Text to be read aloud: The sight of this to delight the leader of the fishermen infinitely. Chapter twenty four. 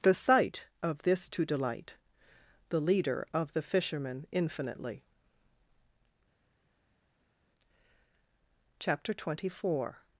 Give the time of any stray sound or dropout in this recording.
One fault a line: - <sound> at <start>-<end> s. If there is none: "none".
none